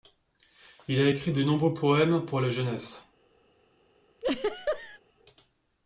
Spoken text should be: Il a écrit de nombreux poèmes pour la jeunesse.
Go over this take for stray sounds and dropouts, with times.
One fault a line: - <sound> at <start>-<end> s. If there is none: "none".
- laugh at 4.2-5.0 s